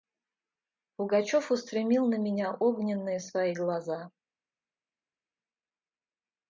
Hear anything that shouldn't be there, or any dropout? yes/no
no